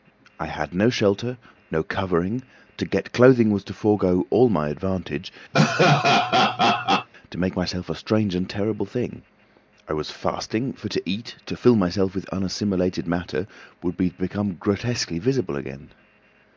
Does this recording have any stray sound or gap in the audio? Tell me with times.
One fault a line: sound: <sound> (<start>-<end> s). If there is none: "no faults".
sound: laugh (5.5-7.1 s)